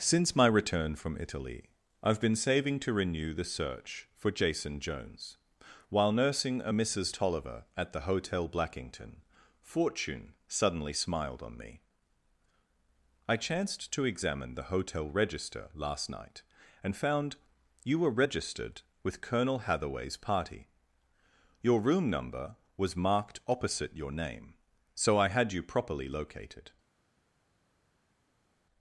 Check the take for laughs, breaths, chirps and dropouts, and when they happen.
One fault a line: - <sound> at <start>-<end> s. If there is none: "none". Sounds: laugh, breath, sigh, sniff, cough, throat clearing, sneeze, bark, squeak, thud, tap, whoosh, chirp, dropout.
none